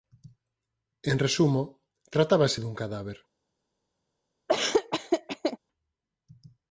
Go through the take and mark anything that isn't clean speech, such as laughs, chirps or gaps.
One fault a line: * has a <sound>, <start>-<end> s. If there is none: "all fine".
* has a laugh, 4.5-5.6 s